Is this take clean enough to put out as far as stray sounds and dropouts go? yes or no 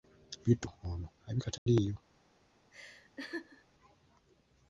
no